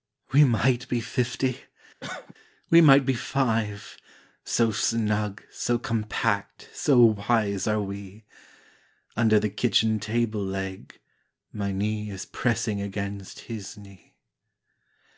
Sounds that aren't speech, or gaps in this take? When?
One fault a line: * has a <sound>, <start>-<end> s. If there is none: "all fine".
* has a cough, 2.0-2.3 s